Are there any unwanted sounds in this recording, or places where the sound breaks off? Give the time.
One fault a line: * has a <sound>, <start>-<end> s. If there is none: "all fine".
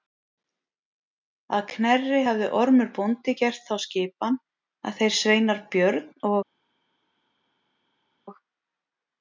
all fine